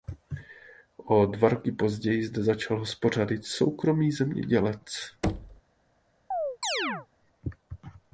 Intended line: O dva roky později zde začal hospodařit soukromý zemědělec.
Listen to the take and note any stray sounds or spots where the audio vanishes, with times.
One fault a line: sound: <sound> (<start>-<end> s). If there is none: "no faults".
sound: thud (5.2-5.6 s)
sound: chirp (6.3-7.1 s)